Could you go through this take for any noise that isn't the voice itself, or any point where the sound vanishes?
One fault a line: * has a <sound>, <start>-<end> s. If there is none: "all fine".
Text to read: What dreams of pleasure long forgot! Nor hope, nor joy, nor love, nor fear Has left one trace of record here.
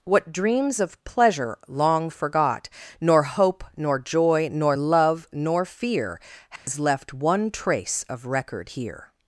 * has a dropout, 6.6-6.7 s